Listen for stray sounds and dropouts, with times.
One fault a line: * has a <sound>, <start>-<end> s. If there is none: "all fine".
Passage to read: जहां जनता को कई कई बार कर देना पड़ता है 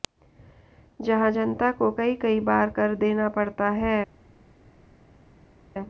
all fine